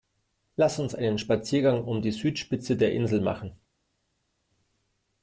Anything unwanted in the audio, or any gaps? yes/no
no